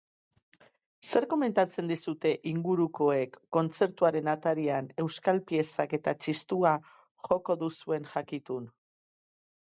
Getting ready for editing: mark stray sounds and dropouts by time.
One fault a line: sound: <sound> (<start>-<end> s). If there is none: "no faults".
no faults